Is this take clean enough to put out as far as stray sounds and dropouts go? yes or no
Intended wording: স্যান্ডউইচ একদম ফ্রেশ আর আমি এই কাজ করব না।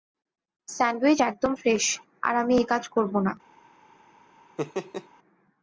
no